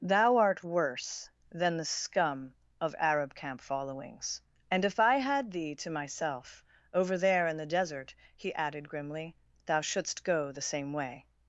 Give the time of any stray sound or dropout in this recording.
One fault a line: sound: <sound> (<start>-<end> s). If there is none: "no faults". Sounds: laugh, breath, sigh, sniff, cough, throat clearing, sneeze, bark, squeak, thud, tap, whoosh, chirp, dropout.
no faults